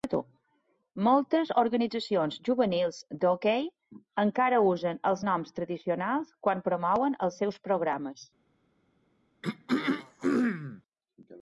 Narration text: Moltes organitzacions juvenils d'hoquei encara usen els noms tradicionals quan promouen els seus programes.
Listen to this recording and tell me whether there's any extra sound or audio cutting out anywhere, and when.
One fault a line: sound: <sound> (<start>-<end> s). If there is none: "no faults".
sound: throat clearing (9.4-10.8 s)